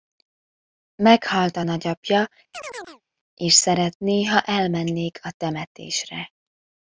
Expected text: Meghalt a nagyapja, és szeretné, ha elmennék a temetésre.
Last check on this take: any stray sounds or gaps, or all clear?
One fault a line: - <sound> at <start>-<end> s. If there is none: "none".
- chirp at 2.5-3.0 s